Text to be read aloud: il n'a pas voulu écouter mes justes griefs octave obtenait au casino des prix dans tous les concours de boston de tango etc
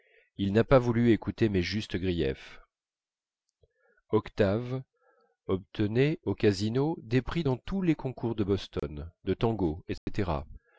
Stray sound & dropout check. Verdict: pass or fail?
fail